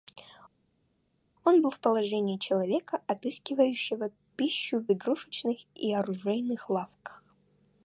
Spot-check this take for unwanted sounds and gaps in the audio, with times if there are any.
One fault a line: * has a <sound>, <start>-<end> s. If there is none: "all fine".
all fine